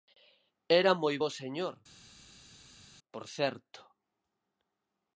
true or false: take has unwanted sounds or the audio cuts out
false